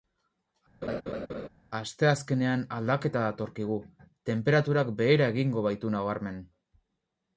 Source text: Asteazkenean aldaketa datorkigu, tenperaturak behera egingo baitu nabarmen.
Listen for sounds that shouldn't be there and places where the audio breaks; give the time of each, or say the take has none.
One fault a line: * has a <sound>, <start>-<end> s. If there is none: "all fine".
* has a laugh, 0.8-1.5 s